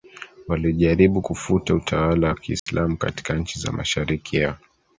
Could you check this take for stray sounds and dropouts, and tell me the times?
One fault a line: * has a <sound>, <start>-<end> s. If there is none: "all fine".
* has a dropout, 2.6-2.7 s